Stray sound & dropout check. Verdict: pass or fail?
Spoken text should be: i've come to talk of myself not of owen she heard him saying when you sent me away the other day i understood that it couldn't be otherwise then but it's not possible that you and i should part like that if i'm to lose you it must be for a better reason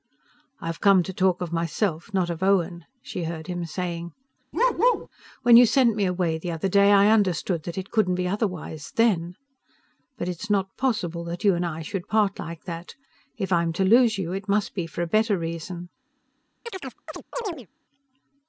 fail